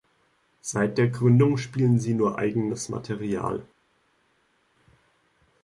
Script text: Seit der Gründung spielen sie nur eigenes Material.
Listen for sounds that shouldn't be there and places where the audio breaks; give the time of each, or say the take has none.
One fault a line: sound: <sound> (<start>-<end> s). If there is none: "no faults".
no faults